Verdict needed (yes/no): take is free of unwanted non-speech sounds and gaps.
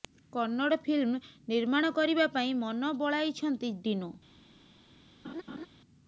no